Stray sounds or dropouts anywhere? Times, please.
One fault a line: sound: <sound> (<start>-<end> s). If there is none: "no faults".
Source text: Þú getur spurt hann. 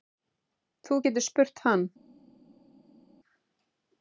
no faults